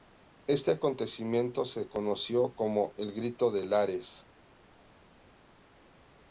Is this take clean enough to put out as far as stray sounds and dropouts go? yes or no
yes